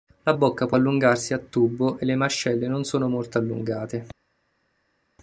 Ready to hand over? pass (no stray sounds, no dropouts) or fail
pass